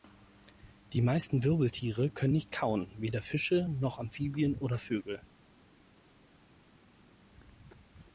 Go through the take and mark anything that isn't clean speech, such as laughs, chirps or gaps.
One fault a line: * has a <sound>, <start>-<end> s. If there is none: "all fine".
all fine